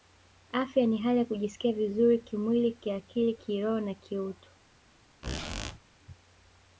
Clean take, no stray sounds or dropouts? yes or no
no